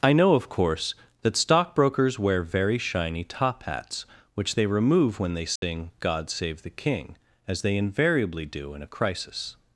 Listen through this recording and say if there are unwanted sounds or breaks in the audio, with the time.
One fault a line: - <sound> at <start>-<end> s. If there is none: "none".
- dropout at 5.6-5.6 s